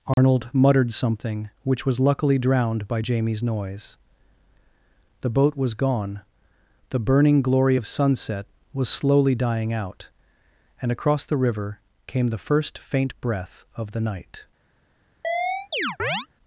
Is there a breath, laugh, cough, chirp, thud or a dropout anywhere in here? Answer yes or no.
yes